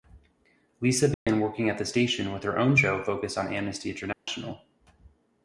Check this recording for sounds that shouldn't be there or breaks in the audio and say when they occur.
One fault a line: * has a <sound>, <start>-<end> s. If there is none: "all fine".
* has a dropout, 1.1-1.3 s
* has a dropout, 4.1-4.3 s